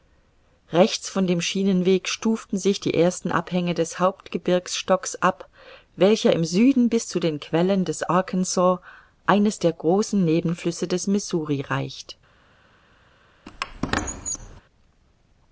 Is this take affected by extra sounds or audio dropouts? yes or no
yes